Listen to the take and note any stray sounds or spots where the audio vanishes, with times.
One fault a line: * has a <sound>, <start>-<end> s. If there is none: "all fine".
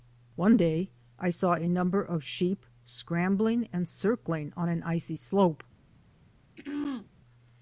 * has a throat clearing, 6.6-7.1 s